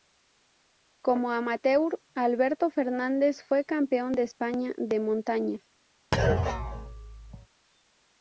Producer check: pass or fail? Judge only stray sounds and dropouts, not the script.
fail